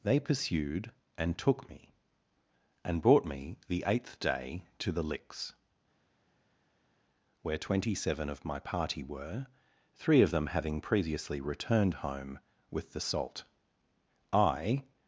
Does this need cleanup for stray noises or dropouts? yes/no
no